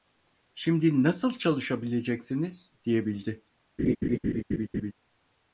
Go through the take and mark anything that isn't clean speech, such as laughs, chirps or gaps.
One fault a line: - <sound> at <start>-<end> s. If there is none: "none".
- laugh at 3.8-4.9 s